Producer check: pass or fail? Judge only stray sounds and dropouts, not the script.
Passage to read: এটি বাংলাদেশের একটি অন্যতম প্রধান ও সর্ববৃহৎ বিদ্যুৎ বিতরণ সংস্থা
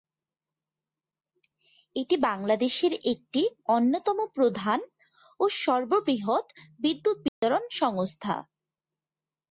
fail